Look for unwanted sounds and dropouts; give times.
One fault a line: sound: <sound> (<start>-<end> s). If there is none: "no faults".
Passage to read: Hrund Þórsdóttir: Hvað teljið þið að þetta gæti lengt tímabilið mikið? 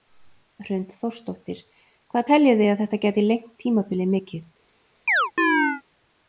sound: chirp (5.1-5.8 s)